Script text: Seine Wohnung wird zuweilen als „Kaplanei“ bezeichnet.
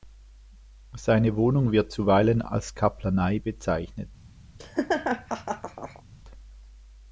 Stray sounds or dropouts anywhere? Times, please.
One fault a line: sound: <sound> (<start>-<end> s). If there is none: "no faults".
sound: laugh (4.6-6.0 s)